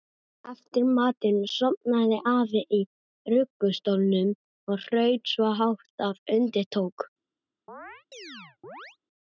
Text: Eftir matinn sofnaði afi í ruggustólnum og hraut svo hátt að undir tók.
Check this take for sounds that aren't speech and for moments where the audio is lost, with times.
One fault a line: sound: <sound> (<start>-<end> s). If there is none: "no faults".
sound: chirp (7.7-9.0 s)